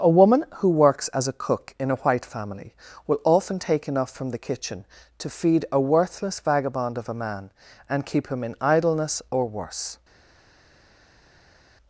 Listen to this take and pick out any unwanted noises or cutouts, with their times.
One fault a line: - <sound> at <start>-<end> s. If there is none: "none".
none